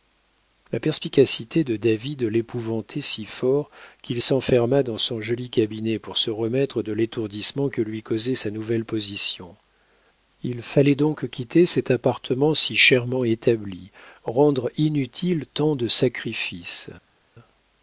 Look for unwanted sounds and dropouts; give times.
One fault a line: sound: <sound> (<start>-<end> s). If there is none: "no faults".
no faults